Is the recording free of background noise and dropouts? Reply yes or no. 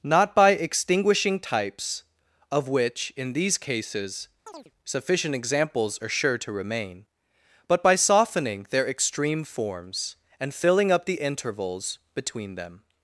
no